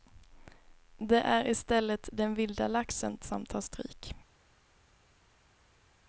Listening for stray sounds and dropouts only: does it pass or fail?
pass